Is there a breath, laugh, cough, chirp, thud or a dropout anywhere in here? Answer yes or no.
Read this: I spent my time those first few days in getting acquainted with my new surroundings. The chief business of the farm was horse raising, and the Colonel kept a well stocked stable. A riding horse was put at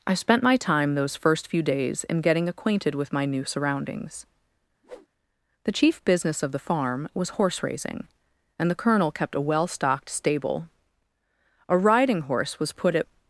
yes